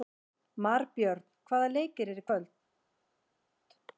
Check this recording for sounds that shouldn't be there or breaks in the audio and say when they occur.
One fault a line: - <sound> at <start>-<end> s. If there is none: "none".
none